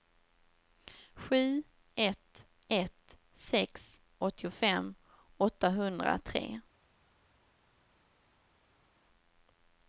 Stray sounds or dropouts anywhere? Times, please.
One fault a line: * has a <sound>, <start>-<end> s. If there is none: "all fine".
all fine